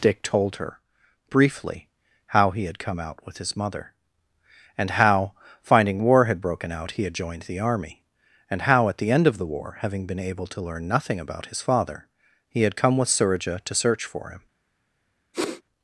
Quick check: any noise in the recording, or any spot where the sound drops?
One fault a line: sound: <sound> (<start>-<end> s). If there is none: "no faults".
sound: sniff (15.3-15.6 s)